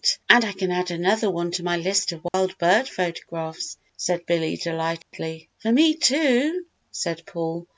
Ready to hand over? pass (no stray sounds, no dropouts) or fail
fail